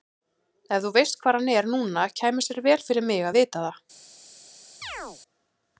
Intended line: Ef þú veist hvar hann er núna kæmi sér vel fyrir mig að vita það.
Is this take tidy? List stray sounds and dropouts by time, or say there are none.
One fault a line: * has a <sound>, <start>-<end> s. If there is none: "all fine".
* has a chirp, 4.8-5.2 s